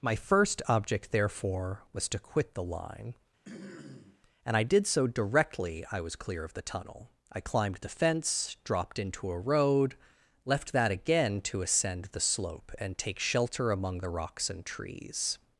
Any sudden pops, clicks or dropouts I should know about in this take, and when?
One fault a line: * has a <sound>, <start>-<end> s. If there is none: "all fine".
* has a throat clearing, 3.4-4.2 s